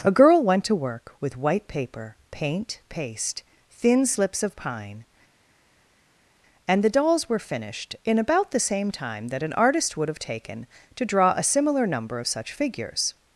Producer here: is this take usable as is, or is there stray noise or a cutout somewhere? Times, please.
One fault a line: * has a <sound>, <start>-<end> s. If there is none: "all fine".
all fine